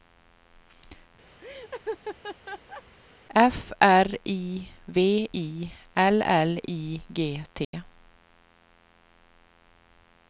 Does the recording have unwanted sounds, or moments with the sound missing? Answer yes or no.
yes